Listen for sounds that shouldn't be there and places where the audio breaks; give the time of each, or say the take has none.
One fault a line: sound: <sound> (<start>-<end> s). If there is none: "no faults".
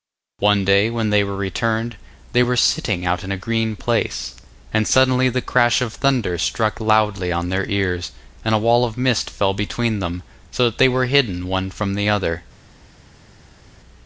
no faults